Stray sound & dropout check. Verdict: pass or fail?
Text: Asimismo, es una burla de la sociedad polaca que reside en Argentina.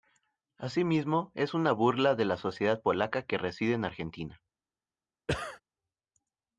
fail